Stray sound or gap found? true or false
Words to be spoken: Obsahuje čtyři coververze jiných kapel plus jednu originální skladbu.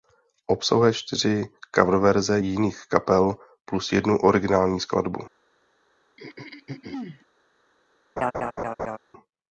true